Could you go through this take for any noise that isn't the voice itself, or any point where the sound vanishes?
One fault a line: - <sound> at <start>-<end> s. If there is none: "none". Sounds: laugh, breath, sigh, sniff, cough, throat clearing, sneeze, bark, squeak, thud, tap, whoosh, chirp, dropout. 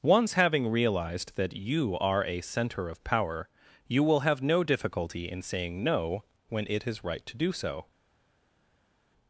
none